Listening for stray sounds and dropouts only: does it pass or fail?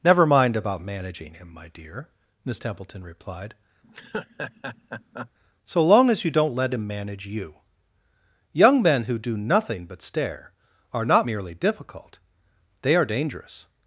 fail